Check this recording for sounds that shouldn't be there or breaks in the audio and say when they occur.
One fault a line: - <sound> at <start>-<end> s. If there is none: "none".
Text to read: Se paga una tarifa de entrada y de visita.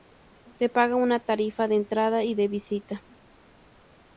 none